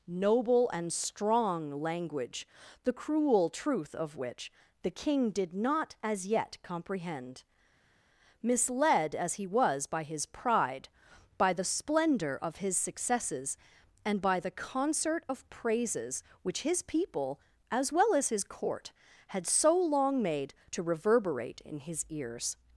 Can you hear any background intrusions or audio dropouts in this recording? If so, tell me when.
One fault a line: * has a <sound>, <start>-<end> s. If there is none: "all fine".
all fine